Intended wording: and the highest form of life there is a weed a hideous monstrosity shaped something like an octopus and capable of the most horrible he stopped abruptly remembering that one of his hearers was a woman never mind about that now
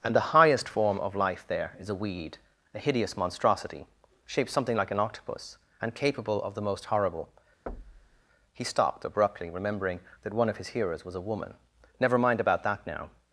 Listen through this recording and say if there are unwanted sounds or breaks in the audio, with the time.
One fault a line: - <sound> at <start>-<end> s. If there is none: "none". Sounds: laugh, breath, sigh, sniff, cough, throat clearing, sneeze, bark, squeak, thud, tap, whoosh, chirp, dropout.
- thud at 7.7-8.2 s